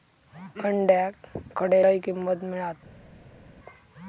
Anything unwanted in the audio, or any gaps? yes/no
no